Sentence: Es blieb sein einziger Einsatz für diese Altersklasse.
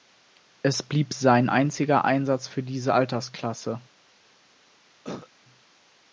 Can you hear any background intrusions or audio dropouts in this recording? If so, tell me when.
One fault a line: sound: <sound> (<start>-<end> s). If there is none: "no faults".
sound: cough (5.0-5.3 s)